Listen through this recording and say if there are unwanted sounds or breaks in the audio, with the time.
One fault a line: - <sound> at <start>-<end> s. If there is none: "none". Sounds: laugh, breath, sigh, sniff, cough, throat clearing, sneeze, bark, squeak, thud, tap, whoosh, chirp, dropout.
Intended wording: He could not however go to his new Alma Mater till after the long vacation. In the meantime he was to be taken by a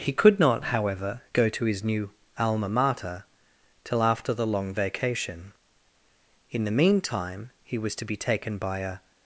none